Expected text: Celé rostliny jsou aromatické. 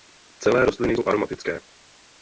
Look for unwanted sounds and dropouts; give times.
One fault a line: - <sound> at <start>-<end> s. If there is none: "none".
none